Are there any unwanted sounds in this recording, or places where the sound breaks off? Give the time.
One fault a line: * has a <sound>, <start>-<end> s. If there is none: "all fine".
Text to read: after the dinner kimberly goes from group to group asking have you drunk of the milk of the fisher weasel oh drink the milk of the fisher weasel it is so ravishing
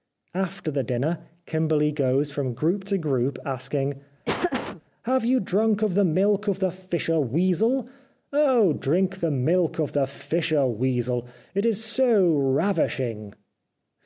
* has a laugh, 4.2-4.8 s